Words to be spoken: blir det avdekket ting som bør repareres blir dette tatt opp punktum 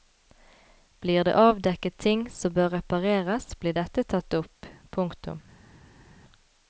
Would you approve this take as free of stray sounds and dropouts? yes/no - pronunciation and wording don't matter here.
yes